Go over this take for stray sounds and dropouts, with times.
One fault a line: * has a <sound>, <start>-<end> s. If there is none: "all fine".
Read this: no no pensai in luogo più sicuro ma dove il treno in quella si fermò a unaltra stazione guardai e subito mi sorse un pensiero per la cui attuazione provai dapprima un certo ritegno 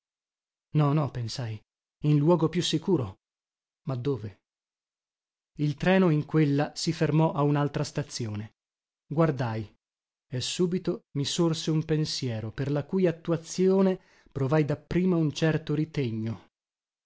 all fine